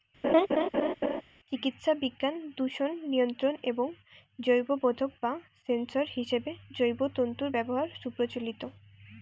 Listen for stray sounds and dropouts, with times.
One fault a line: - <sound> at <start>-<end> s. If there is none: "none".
- laugh at 0.2-1.2 s